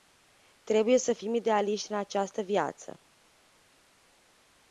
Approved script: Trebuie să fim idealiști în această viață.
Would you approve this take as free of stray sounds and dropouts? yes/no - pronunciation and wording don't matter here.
yes